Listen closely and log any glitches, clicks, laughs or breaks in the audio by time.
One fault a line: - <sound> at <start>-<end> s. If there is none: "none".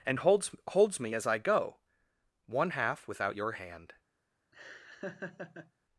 - laugh at 4.5-5.7 s